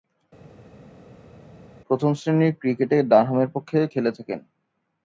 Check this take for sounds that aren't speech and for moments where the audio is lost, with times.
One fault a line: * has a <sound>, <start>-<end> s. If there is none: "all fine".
all fine